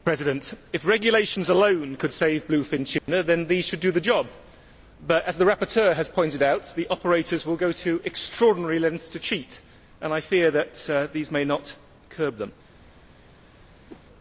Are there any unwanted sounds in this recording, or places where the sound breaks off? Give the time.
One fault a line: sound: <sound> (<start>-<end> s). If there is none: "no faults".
sound: dropout (3.0-3.1 s)
sound: whoosh (13.9-14.0 s)